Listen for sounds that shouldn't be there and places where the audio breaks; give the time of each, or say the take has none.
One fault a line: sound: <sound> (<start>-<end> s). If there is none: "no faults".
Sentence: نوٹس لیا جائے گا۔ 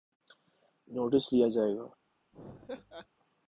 sound: laugh (2.3-3.1 s)